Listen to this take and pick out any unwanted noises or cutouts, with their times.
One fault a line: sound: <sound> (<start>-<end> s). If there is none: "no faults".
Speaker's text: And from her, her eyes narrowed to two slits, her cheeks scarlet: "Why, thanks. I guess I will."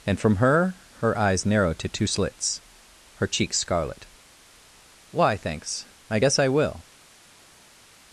no faults